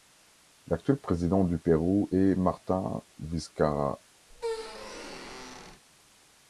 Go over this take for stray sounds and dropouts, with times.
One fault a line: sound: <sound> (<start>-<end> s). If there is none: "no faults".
sound: squeak (4.3-5.8 s)